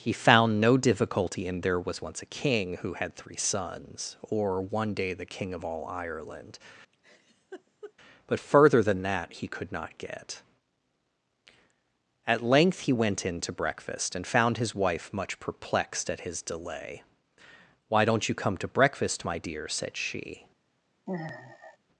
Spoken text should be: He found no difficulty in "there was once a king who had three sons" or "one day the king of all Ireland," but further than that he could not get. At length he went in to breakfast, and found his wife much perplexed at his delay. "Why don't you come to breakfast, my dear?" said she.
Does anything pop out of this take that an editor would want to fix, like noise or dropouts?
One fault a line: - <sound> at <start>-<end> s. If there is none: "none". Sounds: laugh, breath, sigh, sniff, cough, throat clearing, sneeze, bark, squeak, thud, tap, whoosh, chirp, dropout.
- laugh at 6.9-7.9 s
- sigh at 21.1-21.8 s